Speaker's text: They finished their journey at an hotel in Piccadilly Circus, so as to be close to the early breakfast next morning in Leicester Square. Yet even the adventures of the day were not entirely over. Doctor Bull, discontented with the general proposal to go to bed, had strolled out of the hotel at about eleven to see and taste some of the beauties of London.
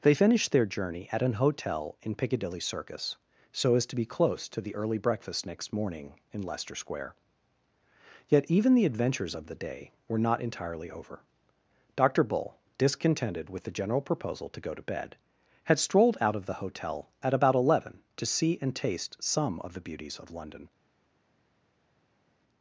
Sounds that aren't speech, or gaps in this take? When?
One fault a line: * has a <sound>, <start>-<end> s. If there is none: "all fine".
all fine